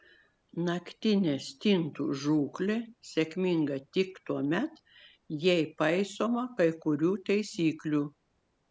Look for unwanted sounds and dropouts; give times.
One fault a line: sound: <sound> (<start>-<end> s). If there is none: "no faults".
no faults